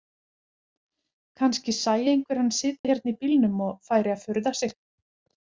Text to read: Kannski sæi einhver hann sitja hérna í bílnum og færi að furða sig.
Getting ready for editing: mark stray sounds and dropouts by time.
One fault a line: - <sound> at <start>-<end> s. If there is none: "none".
- dropout at 2.8-2.8 s